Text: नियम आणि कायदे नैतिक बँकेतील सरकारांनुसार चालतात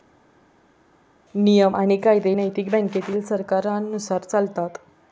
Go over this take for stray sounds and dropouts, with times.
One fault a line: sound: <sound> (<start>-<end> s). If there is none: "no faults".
no faults